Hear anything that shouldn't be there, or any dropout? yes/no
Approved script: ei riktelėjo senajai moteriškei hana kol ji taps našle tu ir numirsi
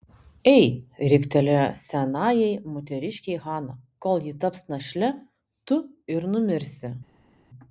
no